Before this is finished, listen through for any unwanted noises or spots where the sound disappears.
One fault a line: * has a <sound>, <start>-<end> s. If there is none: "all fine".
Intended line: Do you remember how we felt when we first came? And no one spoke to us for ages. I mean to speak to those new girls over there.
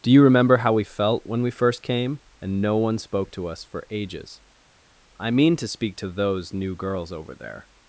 all fine